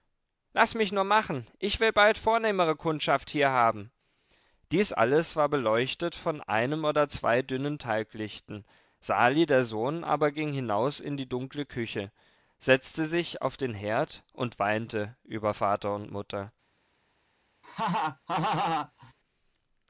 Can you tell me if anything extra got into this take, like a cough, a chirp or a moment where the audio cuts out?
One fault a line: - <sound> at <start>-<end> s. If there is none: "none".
- laugh at 17.6-19.1 s